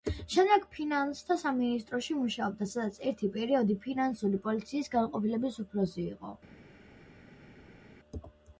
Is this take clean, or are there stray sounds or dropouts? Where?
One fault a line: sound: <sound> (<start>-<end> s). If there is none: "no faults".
no faults